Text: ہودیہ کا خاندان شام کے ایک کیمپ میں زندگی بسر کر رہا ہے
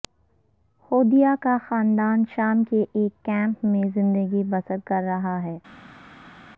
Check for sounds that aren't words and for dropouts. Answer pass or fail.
pass